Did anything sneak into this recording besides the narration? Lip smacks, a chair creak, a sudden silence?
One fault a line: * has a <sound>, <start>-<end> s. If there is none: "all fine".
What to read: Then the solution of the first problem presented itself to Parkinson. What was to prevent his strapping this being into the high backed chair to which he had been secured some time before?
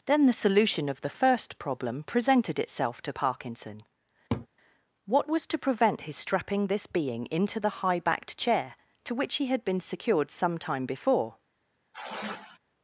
* has a laugh, 4.3-4.5 s
* has a sigh, 11.9-12.6 s